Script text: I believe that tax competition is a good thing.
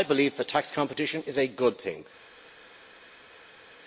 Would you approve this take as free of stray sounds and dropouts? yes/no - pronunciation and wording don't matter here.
yes